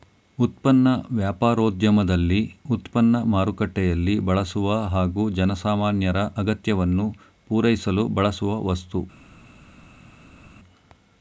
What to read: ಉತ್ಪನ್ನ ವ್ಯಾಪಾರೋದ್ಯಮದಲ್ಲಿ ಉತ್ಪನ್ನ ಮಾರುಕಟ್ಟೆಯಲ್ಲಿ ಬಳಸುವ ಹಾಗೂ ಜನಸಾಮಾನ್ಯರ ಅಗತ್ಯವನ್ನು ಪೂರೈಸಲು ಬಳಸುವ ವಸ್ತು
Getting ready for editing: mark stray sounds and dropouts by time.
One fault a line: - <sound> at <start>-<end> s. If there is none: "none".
none